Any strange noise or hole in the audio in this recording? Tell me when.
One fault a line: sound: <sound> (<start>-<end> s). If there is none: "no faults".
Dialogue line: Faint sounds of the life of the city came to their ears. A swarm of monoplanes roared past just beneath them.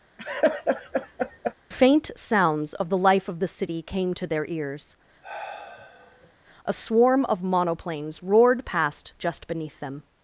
sound: laugh (0.2-1.5 s)
sound: sigh (5.2-6.3 s)